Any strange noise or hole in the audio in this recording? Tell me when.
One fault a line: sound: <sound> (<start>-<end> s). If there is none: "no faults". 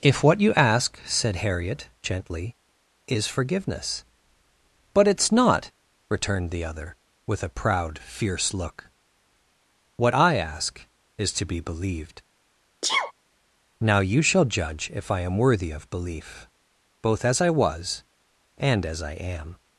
sound: sneeze (12.8-13.1 s)